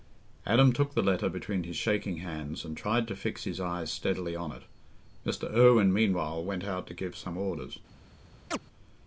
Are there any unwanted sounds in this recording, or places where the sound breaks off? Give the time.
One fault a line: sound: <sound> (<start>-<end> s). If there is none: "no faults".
sound: chirp (8.5-8.6 s)